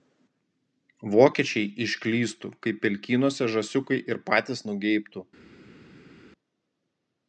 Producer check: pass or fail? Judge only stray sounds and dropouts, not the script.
pass